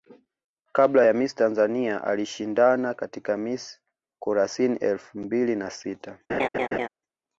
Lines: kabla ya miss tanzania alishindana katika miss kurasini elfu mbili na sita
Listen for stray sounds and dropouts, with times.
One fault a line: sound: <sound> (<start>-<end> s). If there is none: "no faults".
sound: laugh (6.3-6.9 s)